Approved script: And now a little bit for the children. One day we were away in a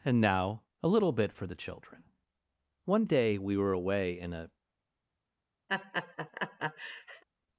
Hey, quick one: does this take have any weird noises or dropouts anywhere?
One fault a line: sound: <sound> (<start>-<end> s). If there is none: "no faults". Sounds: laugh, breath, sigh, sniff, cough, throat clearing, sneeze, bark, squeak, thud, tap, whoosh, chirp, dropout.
sound: laugh (5.7-7.2 s)